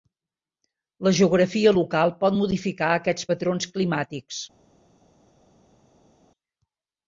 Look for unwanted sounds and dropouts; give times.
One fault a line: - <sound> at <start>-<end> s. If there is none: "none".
none